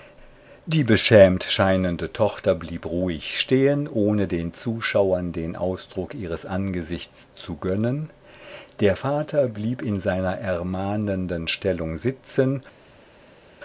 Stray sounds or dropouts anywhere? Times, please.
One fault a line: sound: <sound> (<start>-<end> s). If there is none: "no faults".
no faults